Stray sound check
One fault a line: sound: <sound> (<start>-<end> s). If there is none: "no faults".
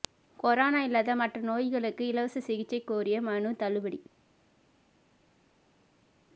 no faults